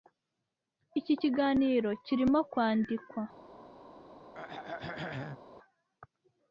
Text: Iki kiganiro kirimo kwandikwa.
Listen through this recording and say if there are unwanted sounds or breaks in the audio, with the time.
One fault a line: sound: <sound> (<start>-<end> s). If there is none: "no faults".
sound: throat clearing (4.3-5.4 s)